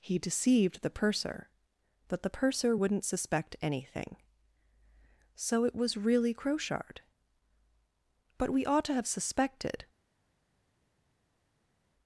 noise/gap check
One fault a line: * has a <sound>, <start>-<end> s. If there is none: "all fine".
all fine